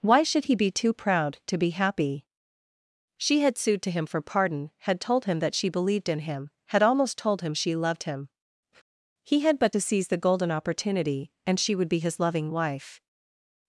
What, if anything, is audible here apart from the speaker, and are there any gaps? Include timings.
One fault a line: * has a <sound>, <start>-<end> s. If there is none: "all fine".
all fine